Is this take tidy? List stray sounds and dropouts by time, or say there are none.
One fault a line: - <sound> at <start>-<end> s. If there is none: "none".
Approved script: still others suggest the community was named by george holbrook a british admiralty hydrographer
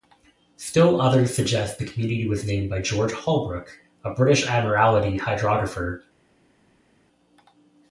none